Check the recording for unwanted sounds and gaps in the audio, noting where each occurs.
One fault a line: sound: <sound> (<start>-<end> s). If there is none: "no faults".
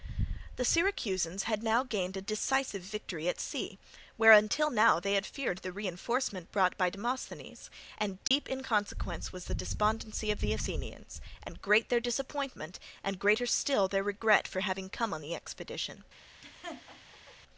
sound: dropout (8.3-8.3 s)
sound: laugh (16.4-17.4 s)